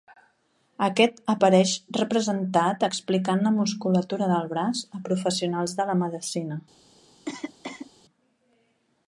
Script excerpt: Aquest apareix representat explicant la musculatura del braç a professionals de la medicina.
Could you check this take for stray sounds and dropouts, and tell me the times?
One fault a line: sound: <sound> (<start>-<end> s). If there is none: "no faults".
sound: cough (7.3-7.9 s)